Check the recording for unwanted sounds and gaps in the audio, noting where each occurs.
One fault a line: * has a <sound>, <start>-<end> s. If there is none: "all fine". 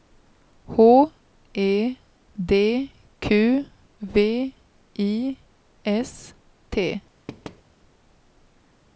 * has a thud, 7.3-7.6 s